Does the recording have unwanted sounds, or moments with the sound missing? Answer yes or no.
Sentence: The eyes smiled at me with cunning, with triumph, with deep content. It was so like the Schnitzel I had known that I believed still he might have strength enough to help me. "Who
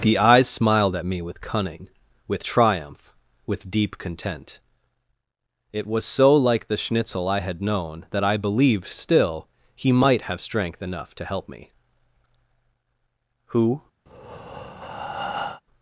yes